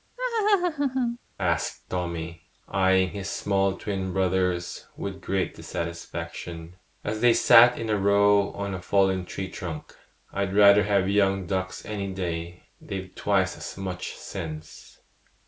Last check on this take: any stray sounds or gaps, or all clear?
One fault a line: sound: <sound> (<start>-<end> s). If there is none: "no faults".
sound: laugh (0.2-1.2 s)